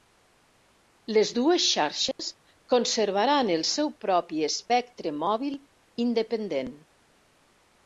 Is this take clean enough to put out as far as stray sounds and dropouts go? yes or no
no